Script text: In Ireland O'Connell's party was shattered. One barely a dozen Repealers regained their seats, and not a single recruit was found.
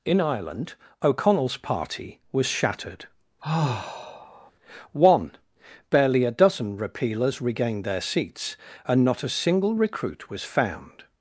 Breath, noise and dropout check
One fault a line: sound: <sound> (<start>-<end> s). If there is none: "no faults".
sound: sigh (3.4-4.5 s)